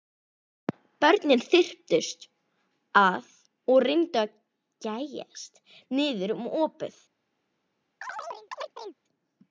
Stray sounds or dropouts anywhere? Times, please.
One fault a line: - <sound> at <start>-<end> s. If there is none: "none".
- chirp at 8.0-8.9 s